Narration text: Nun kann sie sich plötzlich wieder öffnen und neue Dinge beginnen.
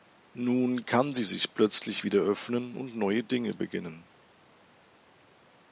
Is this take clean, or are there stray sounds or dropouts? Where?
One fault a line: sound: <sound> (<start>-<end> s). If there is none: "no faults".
no faults